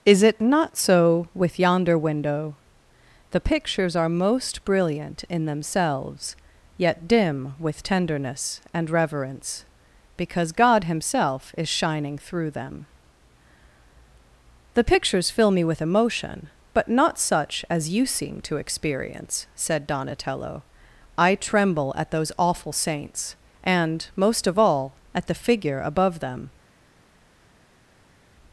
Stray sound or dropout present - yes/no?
no